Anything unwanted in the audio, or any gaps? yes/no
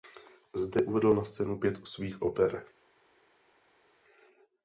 no